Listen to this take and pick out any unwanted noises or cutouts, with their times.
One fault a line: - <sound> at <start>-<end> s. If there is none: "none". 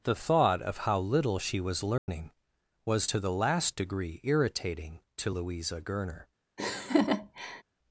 - dropout at 2.0-2.1 s
- laugh at 6.6-7.6 s